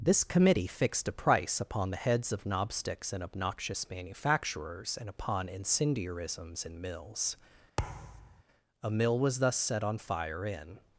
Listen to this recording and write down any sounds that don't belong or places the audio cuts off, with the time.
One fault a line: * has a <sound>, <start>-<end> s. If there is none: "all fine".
* has a thud, 7.8-8.4 s